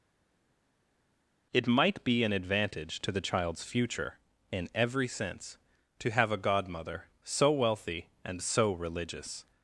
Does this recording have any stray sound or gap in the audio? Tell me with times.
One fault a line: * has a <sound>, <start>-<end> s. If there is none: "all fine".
all fine